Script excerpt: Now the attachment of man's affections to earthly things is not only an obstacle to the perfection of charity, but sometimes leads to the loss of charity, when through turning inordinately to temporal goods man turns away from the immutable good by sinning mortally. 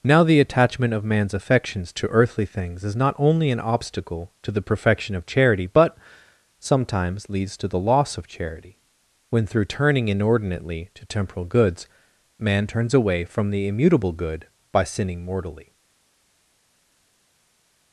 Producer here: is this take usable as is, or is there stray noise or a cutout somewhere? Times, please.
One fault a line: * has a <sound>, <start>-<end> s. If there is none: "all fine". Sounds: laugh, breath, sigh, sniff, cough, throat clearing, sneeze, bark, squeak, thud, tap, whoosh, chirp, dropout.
all fine